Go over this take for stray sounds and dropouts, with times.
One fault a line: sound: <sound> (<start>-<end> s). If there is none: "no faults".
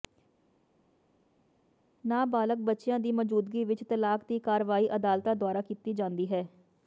no faults